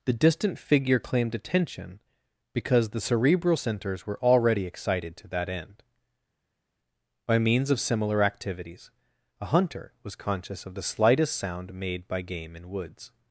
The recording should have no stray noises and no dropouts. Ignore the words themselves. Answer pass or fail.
pass